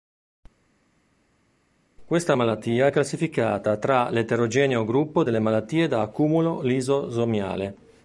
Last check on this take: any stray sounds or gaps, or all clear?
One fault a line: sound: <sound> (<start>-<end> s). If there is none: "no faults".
no faults